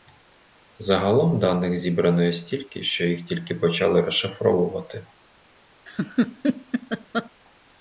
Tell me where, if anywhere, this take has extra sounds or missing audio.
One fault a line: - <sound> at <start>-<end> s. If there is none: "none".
- laugh at 5.9-7.3 s